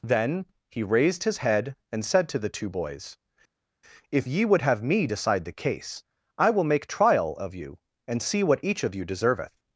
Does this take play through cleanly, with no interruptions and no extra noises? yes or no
yes